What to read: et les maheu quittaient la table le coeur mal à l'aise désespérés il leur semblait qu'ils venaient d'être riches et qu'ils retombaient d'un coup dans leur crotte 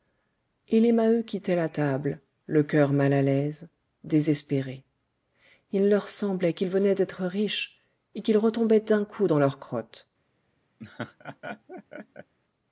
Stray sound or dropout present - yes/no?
yes